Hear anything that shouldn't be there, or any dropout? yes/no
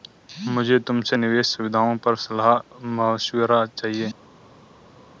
no